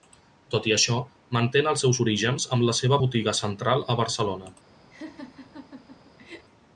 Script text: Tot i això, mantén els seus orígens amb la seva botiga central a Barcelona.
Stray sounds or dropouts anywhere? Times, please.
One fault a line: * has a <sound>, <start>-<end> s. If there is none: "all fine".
* has a laugh, 4.9-6.5 s